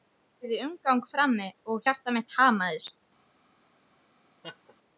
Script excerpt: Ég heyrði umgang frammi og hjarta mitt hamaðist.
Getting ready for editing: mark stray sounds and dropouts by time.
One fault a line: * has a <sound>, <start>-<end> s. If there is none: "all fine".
* has a laugh, 4.4-4.8 s